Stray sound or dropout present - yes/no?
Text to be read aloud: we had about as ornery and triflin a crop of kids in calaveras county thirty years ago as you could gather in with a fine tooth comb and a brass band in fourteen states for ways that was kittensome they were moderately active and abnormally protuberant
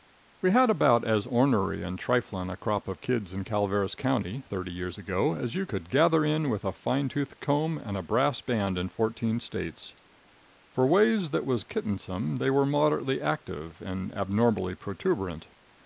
no